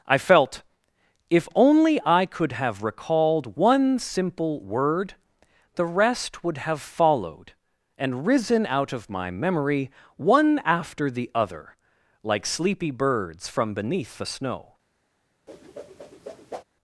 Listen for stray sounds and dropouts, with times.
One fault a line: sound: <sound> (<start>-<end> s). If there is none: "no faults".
sound: whoosh (15.5-16.6 s)